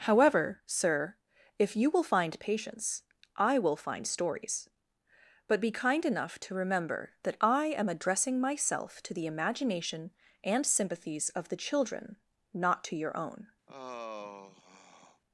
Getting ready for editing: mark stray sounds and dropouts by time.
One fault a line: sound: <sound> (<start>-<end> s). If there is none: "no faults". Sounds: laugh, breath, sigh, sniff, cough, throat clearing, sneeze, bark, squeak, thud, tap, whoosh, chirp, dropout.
sound: sigh (13.7-15.2 s)